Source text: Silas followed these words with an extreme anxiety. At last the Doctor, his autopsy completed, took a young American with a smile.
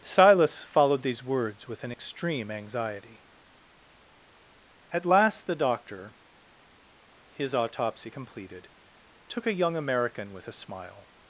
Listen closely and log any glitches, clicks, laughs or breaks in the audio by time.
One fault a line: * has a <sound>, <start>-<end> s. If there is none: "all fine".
all fine